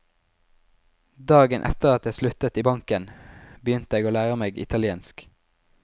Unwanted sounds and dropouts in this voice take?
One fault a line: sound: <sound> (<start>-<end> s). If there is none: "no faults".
no faults